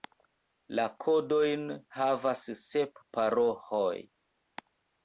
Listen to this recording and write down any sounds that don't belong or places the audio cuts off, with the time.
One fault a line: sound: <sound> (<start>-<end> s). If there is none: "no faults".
no faults